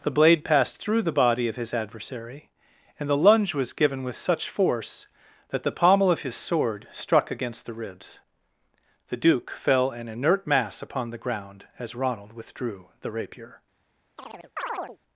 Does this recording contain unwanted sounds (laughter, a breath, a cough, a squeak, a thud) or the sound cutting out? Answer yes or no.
yes